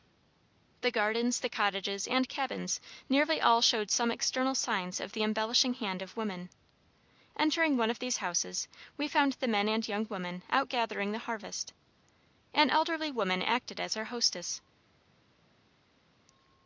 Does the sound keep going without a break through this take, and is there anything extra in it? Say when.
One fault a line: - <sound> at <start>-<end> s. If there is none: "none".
none